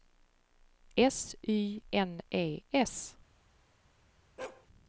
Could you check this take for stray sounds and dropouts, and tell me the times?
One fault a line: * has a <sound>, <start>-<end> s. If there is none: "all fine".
* has a bark, 4.4-4.7 s